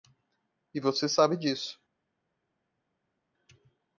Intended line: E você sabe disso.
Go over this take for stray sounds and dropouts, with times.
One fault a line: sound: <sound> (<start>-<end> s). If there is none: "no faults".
no faults